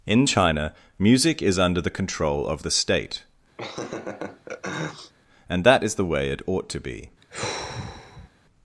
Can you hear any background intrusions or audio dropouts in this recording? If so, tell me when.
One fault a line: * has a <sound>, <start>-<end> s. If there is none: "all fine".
* has a laugh, 3.6-5.1 s
* has a sigh, 7.2-8.3 s